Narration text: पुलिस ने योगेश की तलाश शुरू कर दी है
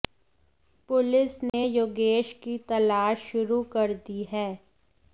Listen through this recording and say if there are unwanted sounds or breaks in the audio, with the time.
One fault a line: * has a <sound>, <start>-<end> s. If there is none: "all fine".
* has a dropout, 1.5-1.5 s